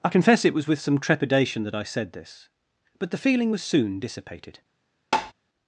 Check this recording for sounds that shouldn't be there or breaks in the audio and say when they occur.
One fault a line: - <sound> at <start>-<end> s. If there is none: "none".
- tap at 5.1-5.3 s